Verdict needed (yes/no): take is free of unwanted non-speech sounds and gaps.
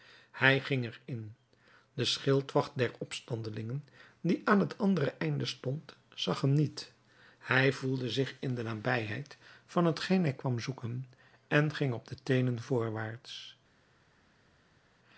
yes